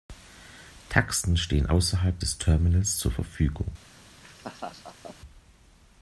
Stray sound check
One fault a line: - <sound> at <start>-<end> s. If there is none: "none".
- laugh at 4.2-5.2 s